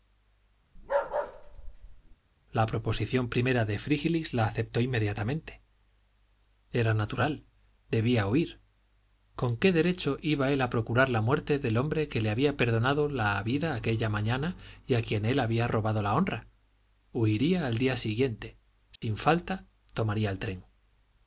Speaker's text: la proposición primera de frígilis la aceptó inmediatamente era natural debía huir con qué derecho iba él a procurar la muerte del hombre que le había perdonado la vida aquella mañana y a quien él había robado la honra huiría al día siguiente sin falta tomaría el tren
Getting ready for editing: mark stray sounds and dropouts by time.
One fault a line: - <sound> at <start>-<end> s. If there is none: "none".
- bark at 0.8-2.2 s
- dropout at 19.0-19.0 s